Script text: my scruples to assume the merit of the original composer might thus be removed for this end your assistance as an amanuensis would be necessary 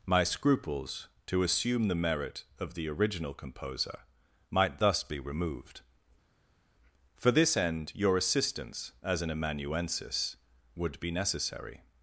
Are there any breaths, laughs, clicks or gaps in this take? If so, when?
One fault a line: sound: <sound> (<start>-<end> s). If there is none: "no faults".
no faults